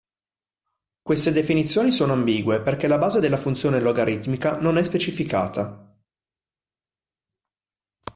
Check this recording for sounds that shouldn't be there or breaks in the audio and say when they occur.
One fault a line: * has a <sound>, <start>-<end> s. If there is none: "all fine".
all fine